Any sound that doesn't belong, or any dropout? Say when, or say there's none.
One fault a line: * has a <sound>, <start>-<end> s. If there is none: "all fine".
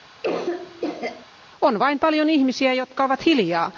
* has a cough, 0.2-1.3 s